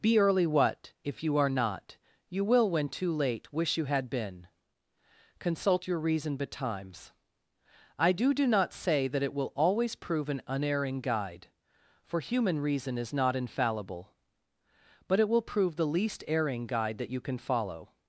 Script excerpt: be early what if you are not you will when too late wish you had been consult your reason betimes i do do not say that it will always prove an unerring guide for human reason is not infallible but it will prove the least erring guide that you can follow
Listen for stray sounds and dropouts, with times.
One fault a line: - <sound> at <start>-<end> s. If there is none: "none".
none